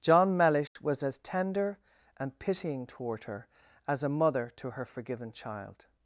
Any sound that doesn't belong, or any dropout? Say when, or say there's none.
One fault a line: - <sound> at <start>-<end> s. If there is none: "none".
- dropout at 0.7-0.8 s